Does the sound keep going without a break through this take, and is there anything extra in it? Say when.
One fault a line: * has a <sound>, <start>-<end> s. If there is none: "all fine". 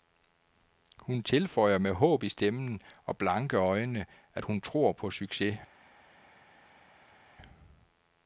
all fine